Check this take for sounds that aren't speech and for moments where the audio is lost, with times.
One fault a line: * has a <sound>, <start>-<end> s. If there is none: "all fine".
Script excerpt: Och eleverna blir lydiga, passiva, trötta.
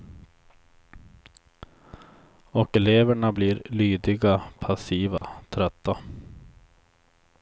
* has a dropout, 5.2-5.2 s